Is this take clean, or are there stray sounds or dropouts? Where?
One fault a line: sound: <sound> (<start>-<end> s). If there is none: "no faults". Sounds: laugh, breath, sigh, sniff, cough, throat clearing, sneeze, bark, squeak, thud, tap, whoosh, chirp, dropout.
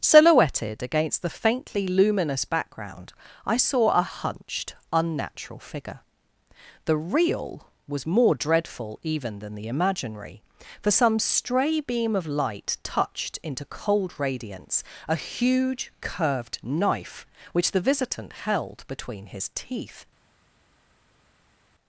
no faults